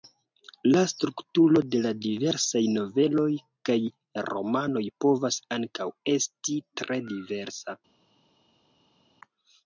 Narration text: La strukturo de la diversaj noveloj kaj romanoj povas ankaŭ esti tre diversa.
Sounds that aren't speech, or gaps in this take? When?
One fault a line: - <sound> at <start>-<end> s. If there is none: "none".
none